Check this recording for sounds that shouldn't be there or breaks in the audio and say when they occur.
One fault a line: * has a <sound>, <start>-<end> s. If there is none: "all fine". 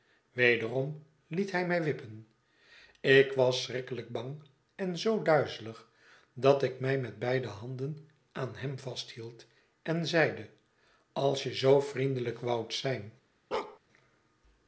* has a bark, 13.5-13.8 s